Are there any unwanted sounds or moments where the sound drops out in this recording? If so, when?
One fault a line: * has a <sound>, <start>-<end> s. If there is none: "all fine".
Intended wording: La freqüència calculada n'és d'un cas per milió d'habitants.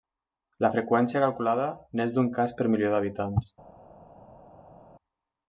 all fine